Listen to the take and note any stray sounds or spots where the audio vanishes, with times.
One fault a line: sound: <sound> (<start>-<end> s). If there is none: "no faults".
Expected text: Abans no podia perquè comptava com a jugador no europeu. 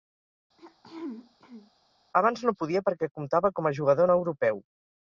sound: throat clearing (0.6-1.7 s)